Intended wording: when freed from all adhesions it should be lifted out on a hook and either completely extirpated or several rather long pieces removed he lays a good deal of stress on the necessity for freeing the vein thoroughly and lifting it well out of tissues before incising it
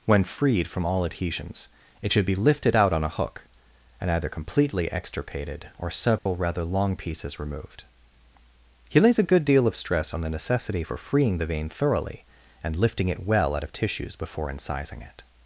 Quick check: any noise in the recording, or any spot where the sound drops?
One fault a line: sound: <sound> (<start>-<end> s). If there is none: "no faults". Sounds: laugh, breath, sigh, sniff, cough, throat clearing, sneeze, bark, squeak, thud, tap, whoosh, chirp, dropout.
sound: dropout (6.2-6.3 s)